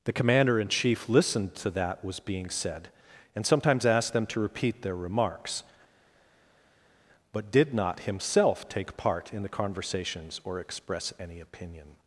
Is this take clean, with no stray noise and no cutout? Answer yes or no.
yes